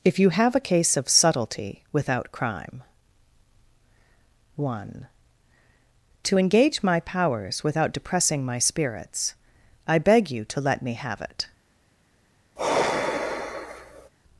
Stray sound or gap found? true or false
true